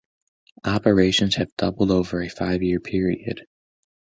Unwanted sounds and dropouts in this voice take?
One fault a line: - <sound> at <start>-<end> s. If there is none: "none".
none